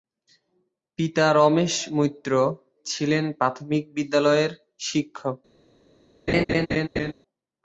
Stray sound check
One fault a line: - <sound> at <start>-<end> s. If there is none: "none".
- laugh at 6.3-7.1 s